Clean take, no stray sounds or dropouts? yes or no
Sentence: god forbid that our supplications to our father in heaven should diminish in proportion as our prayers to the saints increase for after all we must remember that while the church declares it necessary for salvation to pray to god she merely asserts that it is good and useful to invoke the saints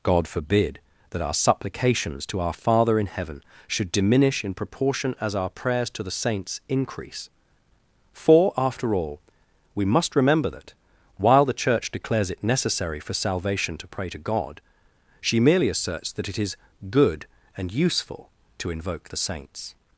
yes